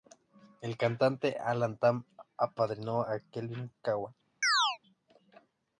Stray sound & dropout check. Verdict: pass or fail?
fail